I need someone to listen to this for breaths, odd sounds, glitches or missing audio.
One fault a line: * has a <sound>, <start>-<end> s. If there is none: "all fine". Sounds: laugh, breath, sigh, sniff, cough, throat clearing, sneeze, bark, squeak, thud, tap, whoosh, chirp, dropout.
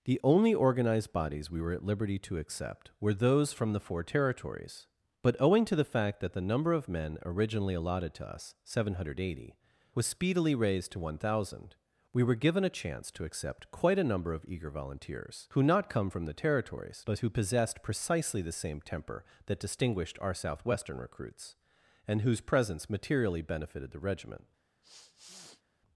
* has a sniff, 24.8-25.6 s